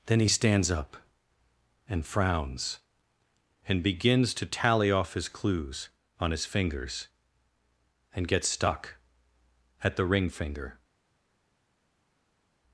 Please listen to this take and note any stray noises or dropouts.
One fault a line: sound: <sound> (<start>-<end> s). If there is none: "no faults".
no faults